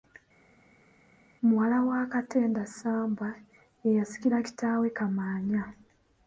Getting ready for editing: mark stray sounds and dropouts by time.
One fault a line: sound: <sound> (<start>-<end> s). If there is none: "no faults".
no faults